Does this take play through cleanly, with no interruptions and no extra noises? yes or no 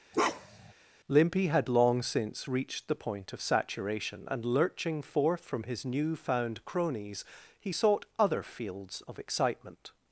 no